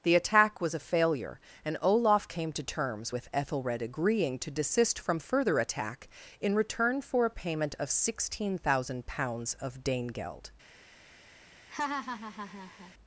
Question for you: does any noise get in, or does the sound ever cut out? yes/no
yes